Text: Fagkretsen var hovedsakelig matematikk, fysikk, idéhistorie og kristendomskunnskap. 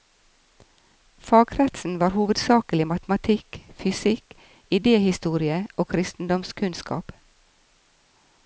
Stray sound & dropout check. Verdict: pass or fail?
pass